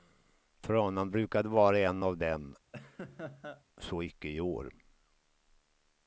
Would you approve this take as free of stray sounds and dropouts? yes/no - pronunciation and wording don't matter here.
no